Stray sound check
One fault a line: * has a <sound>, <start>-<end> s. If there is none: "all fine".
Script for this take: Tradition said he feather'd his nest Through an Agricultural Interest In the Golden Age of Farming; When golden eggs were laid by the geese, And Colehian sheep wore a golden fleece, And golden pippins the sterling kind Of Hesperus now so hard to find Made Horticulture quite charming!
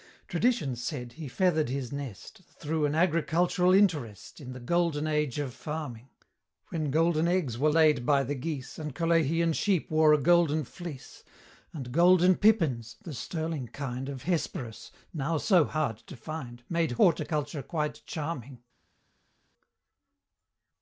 all fine